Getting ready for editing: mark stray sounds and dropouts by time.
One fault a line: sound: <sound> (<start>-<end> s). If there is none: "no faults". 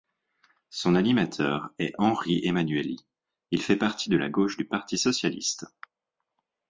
no faults